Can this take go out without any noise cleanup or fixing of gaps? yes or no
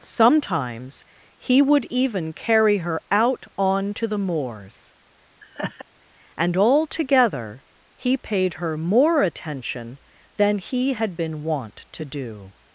no